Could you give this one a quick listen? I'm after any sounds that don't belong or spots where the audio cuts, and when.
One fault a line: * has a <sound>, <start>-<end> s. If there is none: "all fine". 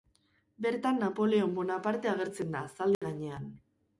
* has a dropout, 2.9-3.0 s